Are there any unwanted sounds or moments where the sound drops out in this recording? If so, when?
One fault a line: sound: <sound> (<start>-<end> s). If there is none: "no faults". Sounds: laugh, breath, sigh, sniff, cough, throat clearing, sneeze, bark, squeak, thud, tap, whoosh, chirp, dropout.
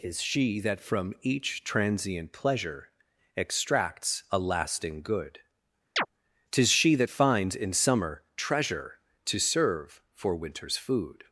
sound: chirp (6.0-6.1 s)